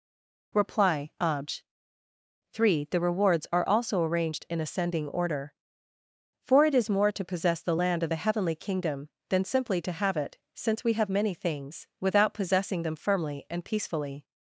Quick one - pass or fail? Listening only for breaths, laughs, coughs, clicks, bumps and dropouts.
pass